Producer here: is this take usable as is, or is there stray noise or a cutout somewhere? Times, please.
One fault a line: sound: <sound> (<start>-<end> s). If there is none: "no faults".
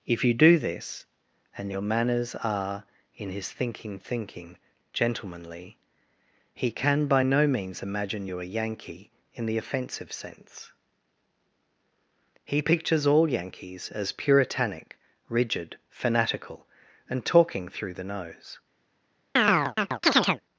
sound: chirp (19.4-20.4 s)